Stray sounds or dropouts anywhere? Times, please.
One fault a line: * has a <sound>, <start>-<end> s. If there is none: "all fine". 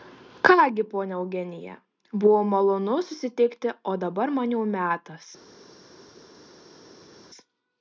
all fine